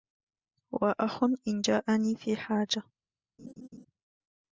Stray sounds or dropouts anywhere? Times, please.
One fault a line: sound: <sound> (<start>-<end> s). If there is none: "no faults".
sound: laugh (3.4-3.9 s)